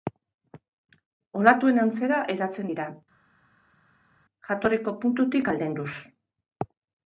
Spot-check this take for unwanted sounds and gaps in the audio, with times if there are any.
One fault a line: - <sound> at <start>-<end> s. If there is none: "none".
none